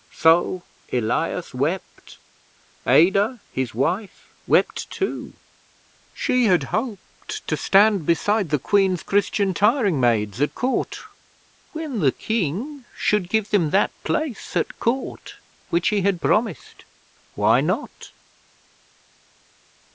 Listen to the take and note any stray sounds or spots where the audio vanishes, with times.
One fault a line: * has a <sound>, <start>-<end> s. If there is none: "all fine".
all fine